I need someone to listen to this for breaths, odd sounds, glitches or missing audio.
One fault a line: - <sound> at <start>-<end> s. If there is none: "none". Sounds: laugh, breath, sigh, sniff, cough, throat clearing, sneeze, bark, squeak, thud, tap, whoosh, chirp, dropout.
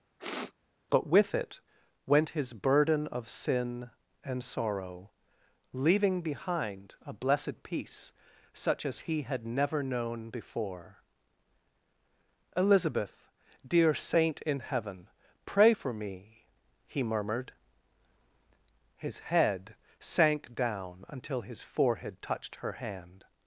- sniff at 0.2-0.5 s